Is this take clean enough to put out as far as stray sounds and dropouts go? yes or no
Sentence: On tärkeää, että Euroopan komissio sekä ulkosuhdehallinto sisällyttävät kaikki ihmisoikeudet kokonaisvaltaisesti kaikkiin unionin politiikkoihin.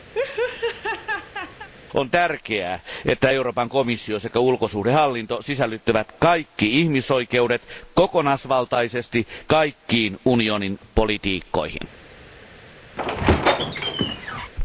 no